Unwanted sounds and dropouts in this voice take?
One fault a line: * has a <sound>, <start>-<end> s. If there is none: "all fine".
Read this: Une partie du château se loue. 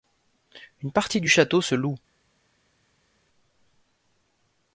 all fine